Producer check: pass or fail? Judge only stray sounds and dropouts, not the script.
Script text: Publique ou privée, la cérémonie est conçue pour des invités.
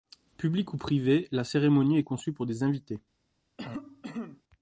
fail